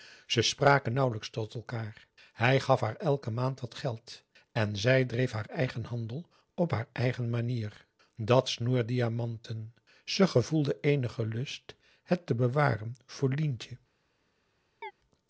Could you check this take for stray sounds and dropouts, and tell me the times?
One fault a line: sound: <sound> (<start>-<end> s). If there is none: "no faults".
sound: chirp (14.8-14.9 s)